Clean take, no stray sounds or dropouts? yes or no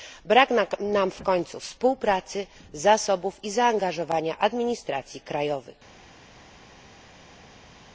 yes